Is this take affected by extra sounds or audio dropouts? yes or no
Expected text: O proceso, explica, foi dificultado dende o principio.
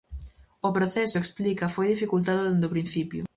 no